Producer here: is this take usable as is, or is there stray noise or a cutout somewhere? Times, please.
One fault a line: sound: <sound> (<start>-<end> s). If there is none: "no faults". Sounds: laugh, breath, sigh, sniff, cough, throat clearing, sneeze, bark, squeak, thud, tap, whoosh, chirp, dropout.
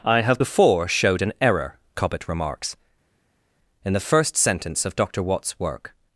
no faults